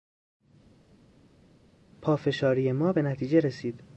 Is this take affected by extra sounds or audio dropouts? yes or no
no